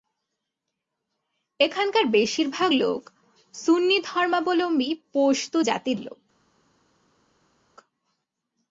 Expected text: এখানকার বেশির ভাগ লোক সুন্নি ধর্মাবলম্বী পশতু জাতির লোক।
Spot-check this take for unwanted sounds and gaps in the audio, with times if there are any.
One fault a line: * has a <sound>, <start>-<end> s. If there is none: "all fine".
all fine